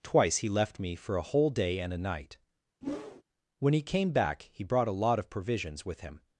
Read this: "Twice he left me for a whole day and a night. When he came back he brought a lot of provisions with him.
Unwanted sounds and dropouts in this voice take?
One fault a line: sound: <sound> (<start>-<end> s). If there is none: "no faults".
sound: whoosh (2.8-3.2 s)